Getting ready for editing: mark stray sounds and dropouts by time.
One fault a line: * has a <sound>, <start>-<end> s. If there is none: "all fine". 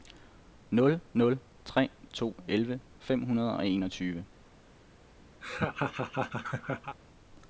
* has a laugh, 5.4-7.0 s